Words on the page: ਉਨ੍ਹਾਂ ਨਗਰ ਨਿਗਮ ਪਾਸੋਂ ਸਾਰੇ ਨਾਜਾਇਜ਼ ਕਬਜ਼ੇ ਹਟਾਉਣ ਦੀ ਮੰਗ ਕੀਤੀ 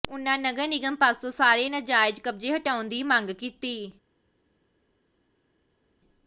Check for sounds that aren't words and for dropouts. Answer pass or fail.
pass